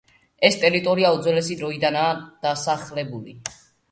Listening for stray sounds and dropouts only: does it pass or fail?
pass